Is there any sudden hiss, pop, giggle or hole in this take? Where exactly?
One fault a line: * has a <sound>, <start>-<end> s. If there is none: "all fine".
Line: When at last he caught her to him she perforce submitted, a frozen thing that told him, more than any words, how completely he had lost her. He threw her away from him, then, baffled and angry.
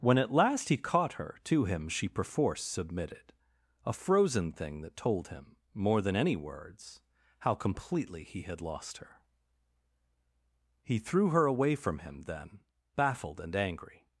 all fine